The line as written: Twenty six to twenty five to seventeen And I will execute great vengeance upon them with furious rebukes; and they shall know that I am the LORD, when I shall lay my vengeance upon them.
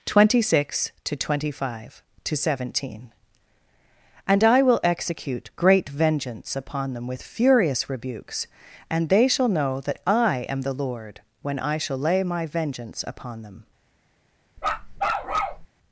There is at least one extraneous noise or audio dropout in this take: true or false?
true